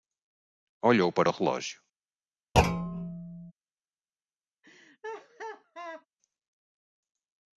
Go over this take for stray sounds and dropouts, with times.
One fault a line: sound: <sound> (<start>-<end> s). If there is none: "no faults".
sound: thud (2.5-3.5 s)
sound: laugh (4.6-6.1 s)